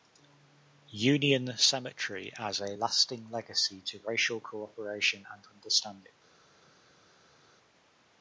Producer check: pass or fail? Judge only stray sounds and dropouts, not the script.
pass